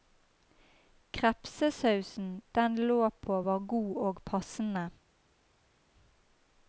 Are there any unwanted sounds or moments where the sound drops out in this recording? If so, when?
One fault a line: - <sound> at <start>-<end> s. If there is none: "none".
none